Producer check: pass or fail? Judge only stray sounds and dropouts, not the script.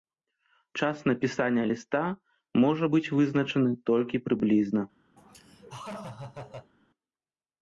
fail